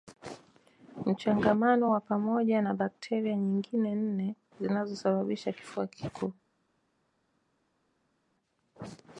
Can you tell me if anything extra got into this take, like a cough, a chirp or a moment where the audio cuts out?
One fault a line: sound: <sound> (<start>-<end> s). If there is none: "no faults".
no faults